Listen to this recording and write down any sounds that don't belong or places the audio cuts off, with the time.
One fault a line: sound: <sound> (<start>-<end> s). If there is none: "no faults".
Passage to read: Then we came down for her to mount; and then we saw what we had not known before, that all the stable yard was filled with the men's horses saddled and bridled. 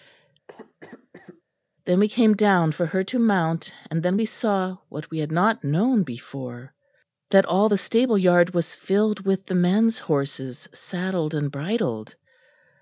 sound: cough (0.5-1.4 s)